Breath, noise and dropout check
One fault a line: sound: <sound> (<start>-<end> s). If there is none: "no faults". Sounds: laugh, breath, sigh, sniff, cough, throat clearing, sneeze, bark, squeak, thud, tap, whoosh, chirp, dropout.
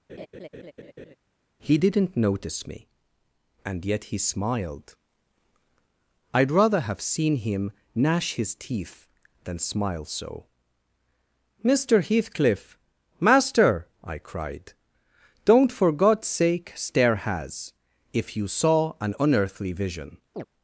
sound: laugh (0.1-1.2 s)
sound: chirp (20.3-20.5 s)